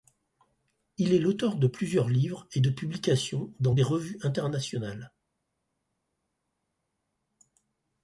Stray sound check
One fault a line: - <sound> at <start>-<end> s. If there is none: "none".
none